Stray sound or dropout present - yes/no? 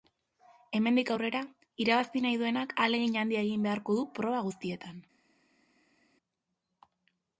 no